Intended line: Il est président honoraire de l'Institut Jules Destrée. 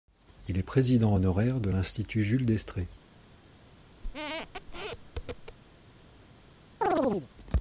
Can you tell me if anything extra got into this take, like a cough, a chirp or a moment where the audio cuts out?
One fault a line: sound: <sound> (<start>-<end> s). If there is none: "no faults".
sound: squeak (4.0-5.6 s)
sound: chirp (6.8-7.3 s)